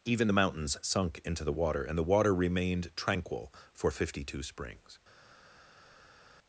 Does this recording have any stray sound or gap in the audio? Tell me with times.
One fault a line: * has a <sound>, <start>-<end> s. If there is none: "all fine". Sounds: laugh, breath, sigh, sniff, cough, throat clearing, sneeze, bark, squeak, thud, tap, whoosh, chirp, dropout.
all fine